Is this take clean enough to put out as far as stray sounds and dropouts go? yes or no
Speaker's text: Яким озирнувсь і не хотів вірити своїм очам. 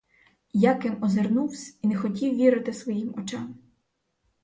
yes